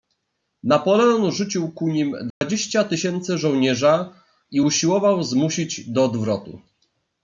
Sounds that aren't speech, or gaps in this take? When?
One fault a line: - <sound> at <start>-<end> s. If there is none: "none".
- dropout at 2.3-2.4 s